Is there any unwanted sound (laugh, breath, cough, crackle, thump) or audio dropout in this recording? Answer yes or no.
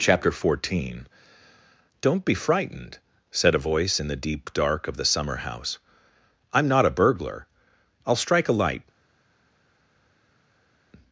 no